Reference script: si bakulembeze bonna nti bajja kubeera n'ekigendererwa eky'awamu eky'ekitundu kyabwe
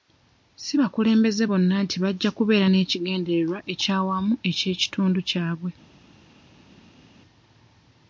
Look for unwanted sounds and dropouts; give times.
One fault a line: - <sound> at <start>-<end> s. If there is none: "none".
none